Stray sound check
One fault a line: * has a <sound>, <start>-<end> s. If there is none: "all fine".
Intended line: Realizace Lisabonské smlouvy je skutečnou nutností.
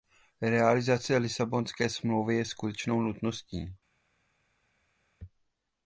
all fine